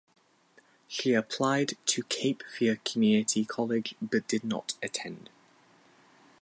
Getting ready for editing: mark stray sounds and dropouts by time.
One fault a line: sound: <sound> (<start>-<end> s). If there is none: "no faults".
no faults